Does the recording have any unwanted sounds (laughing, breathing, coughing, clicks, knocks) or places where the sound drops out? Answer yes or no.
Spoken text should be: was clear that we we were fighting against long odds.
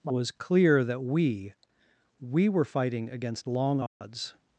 yes